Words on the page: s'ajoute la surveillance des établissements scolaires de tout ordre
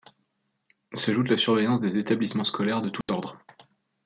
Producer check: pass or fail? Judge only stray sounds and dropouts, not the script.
fail